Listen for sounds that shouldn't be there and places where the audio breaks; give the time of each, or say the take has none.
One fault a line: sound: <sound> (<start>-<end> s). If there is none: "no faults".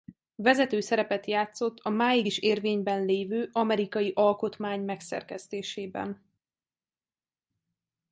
no faults